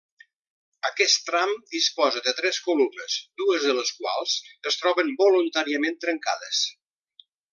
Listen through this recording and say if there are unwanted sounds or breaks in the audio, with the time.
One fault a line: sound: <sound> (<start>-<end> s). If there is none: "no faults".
no faults